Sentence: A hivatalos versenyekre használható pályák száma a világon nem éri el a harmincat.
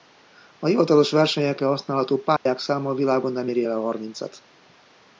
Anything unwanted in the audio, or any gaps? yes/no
yes